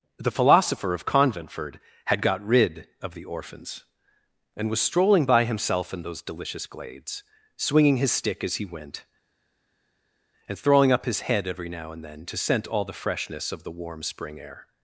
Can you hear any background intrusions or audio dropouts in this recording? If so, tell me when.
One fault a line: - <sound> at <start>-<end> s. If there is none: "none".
none